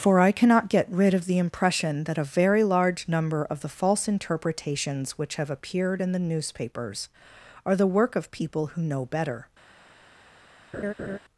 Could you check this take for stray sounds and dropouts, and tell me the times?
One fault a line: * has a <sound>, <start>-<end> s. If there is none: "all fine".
* has a laugh, 10.7-11.2 s